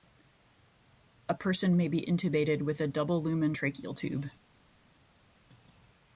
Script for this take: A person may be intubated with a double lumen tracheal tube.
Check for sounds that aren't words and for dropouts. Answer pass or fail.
pass